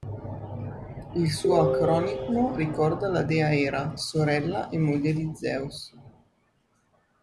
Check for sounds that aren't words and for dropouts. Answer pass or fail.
pass